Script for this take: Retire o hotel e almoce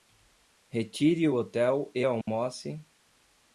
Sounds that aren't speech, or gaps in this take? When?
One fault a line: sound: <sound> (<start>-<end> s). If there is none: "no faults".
sound: dropout (2.2-2.3 s)